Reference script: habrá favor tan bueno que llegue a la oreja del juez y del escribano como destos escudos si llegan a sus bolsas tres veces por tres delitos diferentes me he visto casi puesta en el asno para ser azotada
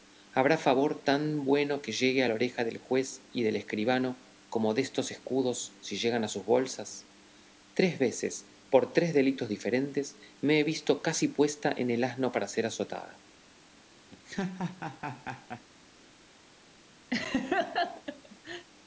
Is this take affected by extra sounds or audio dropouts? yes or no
yes